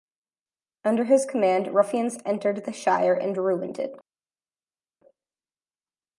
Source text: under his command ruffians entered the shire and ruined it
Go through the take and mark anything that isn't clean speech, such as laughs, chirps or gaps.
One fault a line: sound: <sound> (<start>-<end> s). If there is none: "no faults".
no faults